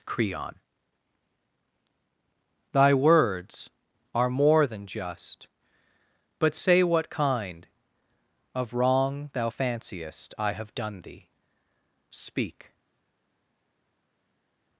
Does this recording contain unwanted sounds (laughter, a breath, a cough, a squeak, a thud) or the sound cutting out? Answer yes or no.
no